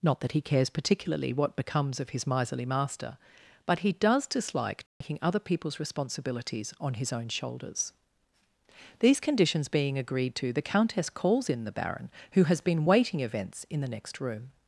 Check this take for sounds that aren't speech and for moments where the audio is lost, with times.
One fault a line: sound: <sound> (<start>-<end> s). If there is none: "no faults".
sound: dropout (4.9-5.0 s)